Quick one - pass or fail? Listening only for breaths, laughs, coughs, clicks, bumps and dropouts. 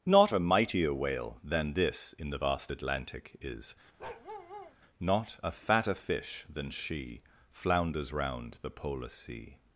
fail